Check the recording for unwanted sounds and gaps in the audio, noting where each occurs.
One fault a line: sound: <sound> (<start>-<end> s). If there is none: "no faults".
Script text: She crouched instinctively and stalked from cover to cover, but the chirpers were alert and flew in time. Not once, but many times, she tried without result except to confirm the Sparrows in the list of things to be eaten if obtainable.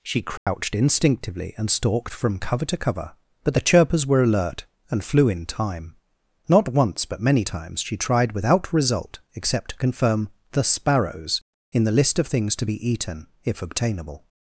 sound: dropout (0.4-0.5 s)